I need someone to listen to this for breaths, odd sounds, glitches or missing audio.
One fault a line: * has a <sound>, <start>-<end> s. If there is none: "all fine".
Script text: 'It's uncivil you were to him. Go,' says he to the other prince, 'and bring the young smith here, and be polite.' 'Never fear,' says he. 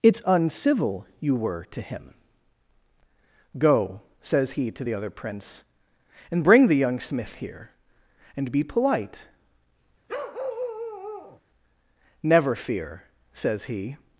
* has a bark, 10.1-11.4 s